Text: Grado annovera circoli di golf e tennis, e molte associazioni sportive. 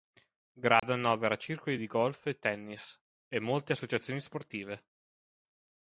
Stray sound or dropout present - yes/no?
yes